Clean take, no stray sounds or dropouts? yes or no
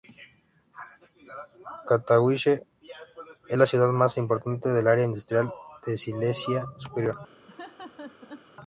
no